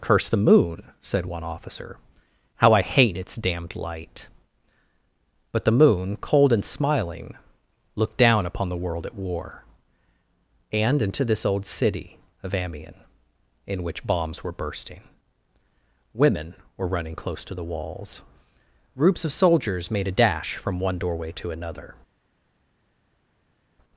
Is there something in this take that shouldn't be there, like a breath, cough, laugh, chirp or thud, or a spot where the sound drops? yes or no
no